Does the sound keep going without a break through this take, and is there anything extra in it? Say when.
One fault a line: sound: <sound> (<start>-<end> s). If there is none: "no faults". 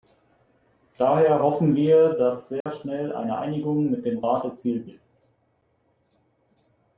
sound: dropout (2.6-2.7 s)